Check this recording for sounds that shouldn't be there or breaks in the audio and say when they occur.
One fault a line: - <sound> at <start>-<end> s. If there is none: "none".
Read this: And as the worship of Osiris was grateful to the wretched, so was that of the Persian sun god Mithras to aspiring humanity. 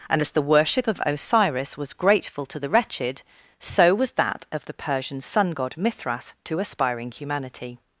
none